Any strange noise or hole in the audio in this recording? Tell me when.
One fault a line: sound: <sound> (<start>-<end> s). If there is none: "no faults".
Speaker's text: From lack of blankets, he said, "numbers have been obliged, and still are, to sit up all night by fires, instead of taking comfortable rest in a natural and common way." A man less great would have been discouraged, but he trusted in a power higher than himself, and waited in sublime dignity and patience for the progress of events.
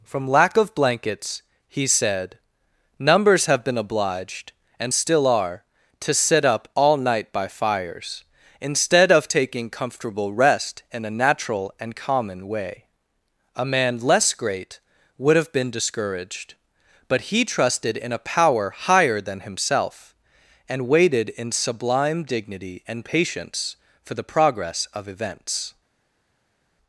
no faults